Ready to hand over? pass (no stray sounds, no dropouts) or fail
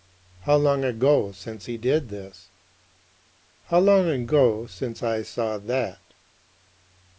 pass